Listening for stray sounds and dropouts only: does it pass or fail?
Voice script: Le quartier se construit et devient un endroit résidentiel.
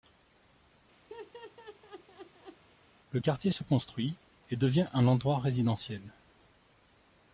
fail